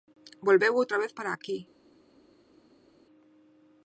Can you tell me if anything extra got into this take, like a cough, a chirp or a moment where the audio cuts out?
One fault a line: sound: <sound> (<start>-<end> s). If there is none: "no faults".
no faults